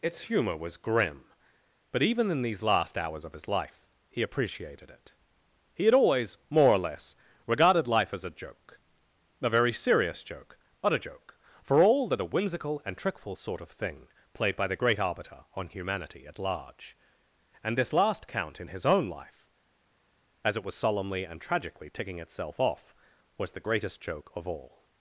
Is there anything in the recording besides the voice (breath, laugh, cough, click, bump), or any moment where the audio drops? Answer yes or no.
no